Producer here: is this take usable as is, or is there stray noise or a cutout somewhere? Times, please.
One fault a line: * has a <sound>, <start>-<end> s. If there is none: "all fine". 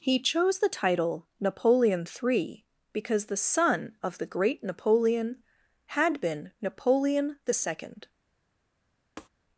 * has a tap, 9.2-9.3 s